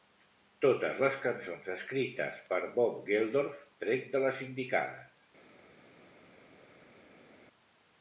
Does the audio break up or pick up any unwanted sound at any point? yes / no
no